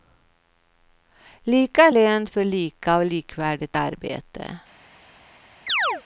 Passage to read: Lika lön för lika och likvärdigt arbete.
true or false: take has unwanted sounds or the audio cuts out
true